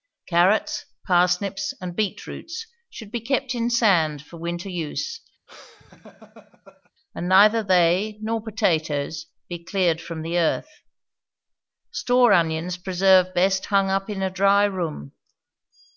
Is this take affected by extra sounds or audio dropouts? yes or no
yes